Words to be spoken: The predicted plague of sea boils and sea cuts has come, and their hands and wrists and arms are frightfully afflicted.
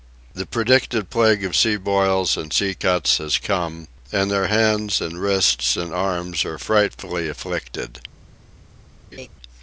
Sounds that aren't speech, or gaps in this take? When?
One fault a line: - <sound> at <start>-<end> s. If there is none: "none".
- laugh at 9.1-9.3 s